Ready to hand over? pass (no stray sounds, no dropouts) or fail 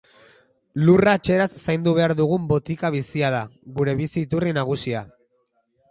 pass